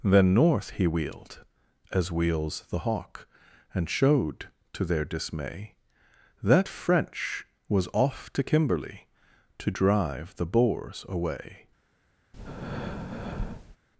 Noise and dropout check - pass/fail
fail